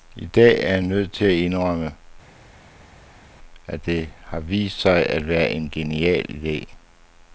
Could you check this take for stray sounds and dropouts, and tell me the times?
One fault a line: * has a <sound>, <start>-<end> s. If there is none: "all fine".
all fine